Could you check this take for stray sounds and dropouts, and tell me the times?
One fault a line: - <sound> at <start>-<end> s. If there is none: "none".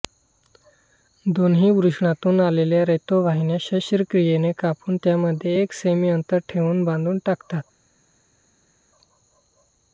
none